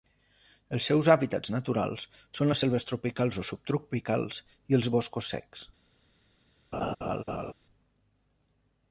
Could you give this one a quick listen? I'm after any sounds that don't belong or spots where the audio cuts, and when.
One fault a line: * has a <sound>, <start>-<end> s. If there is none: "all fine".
* has a laugh, 6.7-7.5 s